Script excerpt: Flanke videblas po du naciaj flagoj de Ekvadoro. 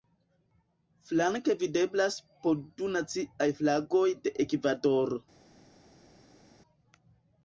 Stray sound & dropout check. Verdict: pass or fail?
pass